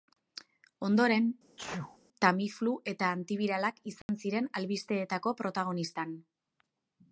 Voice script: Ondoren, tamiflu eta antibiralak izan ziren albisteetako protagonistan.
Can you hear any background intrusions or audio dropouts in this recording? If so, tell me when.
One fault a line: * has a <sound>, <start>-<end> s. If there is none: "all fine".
* has a sneeze, 1.6-2.0 s
* has a dropout, 4.0-4.1 s